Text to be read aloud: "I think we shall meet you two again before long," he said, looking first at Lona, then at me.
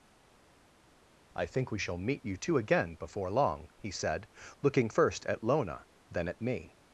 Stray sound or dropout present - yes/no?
no